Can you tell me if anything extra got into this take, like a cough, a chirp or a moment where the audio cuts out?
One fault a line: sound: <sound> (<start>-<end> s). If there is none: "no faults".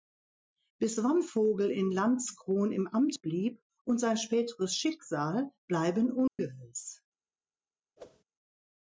sound: dropout (6.3-6.4 s)
sound: whoosh (8.0-8.2 s)